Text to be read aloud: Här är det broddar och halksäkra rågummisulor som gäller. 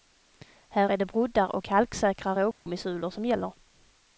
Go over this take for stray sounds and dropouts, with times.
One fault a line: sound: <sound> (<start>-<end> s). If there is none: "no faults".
sound: dropout (2.5-2.7 s)